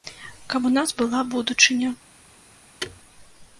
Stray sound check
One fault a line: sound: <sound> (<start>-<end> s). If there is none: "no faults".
sound: thud (2.8-3.0 s)